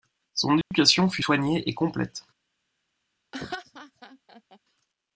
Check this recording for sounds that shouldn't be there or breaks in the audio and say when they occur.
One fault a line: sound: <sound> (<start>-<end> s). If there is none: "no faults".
sound: dropout (0.6-0.7 s)
sound: laugh (3.3-4.6 s)